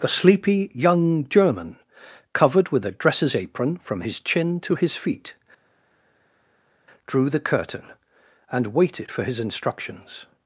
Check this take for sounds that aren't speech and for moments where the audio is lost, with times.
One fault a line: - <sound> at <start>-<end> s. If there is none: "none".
none